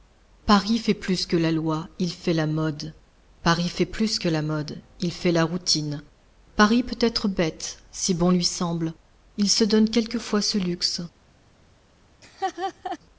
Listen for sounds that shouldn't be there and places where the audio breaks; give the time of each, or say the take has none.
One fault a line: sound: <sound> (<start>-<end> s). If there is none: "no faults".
sound: laugh (12.2-13.0 s)